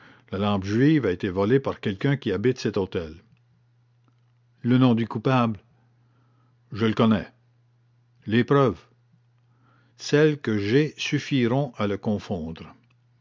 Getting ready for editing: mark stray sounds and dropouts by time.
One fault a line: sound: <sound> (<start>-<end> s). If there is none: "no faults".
no faults